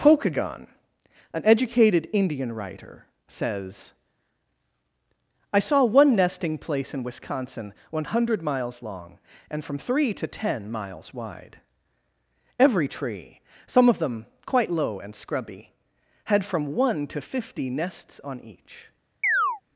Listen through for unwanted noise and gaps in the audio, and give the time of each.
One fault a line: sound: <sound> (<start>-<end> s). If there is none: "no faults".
sound: chirp (19.2-19.6 s)